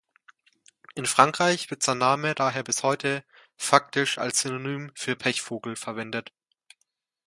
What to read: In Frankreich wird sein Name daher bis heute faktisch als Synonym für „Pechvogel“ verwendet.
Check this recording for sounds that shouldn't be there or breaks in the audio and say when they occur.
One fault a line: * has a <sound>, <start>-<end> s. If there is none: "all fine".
all fine